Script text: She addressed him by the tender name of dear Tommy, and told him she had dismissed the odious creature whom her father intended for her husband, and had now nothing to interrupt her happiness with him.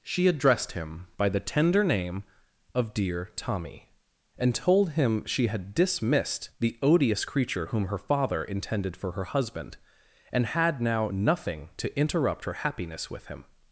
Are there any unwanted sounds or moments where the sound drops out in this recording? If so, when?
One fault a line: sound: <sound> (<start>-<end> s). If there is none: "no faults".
no faults